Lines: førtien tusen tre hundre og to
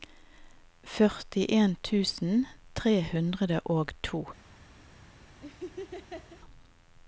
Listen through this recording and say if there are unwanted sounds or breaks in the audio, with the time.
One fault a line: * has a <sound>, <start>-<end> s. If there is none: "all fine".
* has a laugh, 5.4-6.4 s